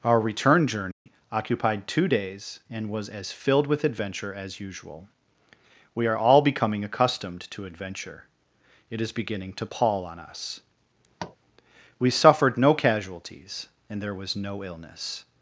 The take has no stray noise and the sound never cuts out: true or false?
false